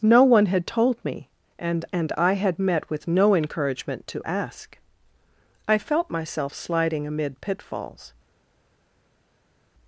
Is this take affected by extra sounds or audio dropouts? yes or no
no